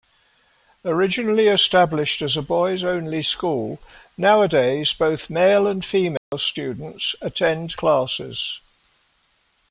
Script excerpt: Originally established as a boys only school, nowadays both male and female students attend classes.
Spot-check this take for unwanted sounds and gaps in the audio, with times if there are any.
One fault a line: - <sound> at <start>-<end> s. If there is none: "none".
- dropout at 6.2-6.3 s